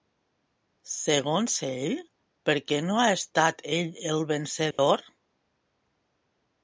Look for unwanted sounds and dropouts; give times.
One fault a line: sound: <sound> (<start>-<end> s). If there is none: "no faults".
sound: dropout (4.7-4.8 s)